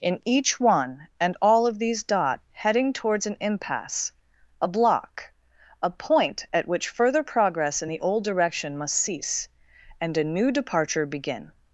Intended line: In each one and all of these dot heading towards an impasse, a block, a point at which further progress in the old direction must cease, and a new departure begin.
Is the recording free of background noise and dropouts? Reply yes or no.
yes